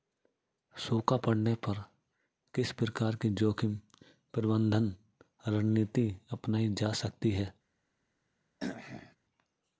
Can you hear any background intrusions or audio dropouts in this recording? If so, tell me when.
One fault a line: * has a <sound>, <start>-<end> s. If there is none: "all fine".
* has a throat clearing, 8.6-9.2 s